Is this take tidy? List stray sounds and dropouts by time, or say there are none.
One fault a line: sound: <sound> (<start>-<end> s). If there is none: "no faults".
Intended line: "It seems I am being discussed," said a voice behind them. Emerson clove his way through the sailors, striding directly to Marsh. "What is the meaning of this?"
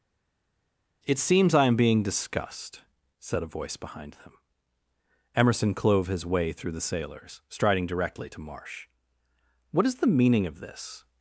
no faults